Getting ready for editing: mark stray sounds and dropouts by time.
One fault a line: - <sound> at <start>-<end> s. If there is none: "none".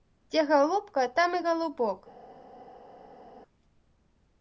none